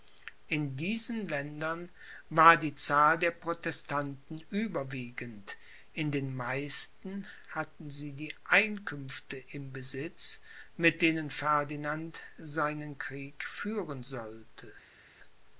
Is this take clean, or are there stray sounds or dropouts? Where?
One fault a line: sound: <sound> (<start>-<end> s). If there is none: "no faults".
no faults